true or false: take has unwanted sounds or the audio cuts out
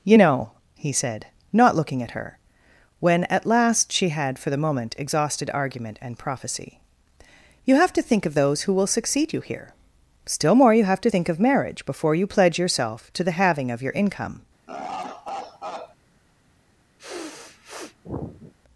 true